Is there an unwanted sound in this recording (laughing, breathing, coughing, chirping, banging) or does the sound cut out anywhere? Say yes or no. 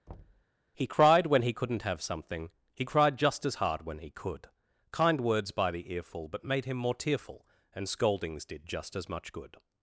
yes